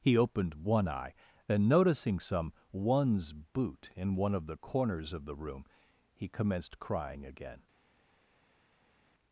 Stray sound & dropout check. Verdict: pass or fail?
pass